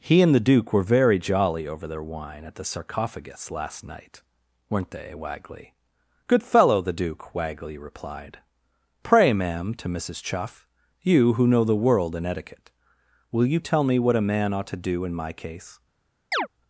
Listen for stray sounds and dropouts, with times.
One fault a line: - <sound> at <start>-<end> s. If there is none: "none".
- chirp at 16.3-16.5 s